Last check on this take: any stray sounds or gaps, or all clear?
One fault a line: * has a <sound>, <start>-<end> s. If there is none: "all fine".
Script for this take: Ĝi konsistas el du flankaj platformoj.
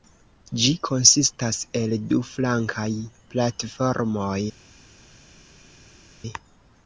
all fine